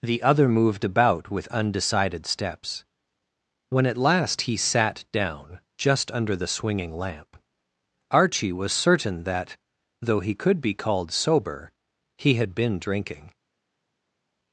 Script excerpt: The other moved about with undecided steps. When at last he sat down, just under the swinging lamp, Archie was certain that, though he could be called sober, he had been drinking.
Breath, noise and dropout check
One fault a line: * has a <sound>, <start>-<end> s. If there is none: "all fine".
all fine